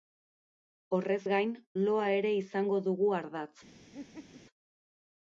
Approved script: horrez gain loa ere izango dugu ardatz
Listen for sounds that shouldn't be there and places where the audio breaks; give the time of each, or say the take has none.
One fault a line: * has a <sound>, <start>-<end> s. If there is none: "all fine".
* has a laugh, 3.9-4.4 s